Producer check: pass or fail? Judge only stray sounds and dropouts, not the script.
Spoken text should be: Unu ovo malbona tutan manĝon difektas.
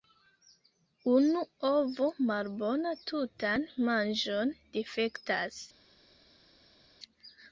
pass